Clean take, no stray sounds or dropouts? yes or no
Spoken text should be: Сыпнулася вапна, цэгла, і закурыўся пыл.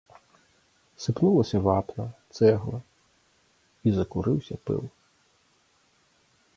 yes